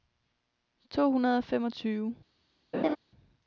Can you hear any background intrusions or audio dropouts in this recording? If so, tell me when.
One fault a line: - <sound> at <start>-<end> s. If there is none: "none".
- laugh at 2.7-3.0 s